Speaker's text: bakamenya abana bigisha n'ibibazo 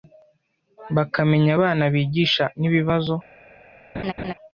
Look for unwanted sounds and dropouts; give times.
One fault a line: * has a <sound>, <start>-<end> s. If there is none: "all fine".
* has a laugh, 3.9-4.3 s